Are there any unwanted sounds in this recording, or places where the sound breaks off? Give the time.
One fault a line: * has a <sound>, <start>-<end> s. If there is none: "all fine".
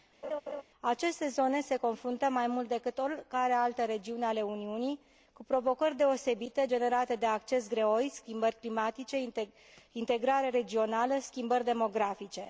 * has a laugh, 0.2-0.6 s